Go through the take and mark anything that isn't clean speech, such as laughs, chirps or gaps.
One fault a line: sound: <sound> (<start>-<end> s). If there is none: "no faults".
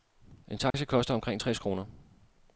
sound: dropout (0.7-0.7 s)